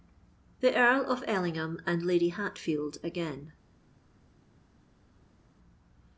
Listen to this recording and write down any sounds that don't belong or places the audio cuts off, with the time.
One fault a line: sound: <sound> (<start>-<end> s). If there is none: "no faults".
no faults